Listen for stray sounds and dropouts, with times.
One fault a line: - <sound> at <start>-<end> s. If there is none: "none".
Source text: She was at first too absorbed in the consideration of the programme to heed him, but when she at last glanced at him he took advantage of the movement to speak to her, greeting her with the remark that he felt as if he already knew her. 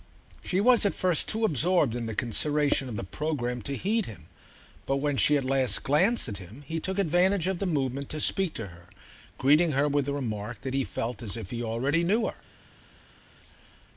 none